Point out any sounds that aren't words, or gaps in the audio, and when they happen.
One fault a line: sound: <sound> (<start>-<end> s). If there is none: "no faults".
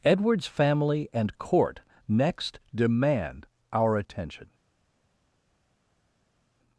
no faults